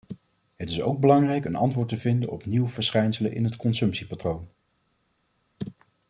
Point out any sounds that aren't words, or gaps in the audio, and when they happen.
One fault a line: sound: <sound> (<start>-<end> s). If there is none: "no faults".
no faults